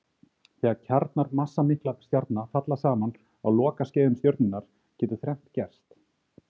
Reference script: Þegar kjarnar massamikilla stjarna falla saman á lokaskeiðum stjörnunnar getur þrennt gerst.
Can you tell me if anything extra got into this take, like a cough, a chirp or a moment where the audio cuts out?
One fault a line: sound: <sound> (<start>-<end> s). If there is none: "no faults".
no faults